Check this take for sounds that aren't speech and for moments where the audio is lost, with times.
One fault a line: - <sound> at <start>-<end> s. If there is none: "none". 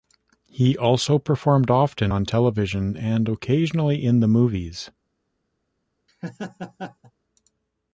- laugh at 6.1-7.1 s